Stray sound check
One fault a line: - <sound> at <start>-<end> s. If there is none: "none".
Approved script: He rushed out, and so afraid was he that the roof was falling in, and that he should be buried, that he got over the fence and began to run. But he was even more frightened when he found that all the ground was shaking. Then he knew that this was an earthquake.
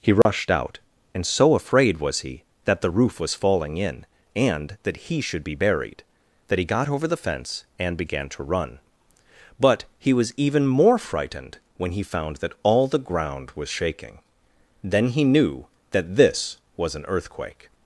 - dropout at 0.2-0.3 s